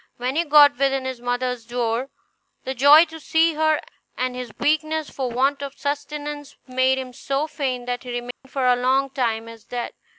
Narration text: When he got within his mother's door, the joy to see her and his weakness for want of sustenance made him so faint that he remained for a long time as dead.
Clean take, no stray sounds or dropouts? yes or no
no